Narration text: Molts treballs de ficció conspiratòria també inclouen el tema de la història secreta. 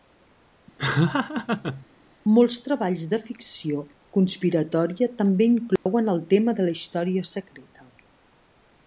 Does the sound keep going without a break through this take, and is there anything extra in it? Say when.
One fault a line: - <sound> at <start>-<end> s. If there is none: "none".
- laugh at 0.8-1.9 s
- dropout at 5.8-5.9 s